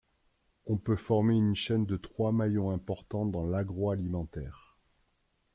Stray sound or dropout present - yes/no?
no